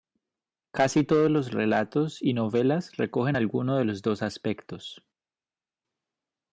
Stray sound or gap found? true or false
false